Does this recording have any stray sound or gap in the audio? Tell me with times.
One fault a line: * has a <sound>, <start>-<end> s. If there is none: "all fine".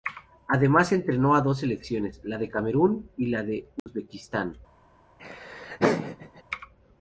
* has a dropout, 3.8-3.9 s
* has a laugh, 5.2-6.4 s